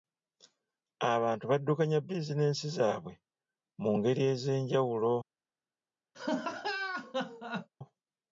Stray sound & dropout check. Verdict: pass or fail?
fail